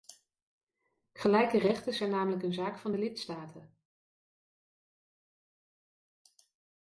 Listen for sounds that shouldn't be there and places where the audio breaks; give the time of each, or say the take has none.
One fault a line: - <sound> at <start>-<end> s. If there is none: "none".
none